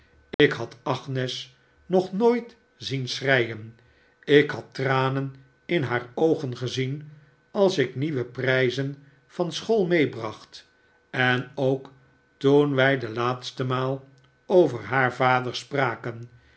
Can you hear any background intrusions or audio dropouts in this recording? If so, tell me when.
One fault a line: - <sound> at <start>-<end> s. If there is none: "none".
- dropout at 0.3-0.4 s